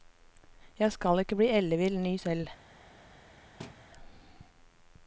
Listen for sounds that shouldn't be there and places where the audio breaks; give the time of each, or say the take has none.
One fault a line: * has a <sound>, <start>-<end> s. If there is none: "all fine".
* has a thud, 3.6-3.9 s